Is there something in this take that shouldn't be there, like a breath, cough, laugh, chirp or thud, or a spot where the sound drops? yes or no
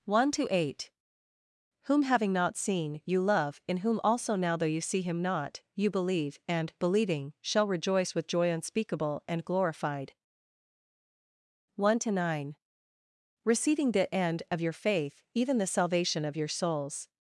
no